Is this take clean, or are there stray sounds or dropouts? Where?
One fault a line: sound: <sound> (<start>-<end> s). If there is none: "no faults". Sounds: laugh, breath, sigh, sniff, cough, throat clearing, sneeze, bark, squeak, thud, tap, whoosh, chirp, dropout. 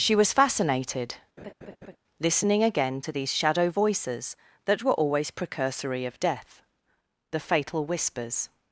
sound: laugh (1.4-2.0 s)